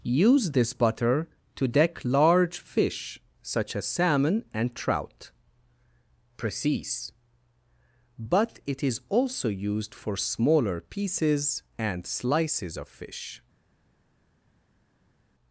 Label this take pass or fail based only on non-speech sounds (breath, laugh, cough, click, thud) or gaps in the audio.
pass